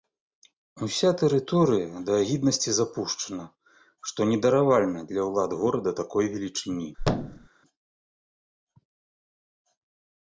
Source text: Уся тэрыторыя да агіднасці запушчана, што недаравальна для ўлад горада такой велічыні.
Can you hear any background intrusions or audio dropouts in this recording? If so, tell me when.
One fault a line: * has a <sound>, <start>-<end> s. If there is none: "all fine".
* has a thud, 7.0-7.5 s